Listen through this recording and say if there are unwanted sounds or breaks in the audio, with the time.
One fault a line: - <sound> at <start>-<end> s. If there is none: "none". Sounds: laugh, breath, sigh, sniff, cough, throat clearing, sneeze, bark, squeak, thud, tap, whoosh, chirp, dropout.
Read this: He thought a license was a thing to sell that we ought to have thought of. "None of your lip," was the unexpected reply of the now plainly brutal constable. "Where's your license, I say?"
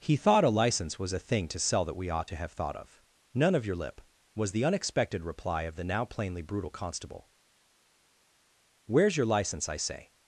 none